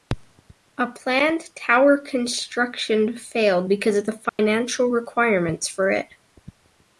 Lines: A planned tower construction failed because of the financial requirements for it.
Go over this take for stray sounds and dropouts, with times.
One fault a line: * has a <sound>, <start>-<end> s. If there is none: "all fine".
* has a dropout, 4.3-4.4 s